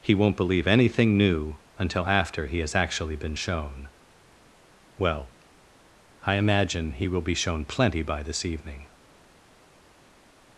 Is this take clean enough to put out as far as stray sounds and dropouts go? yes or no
yes